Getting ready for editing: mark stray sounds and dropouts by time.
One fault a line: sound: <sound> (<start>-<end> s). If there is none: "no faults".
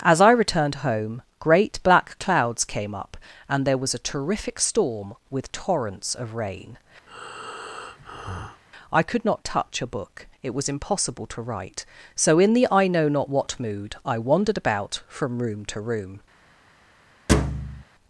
sound: breath (7.1-8.6 s)
sound: thud (17.3-17.8 s)